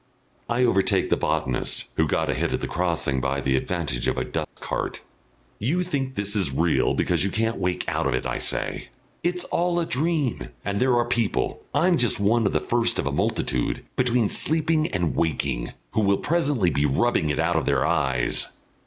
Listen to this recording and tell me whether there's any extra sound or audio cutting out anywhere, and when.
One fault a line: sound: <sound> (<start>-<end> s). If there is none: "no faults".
sound: dropout (4.4-4.6 s)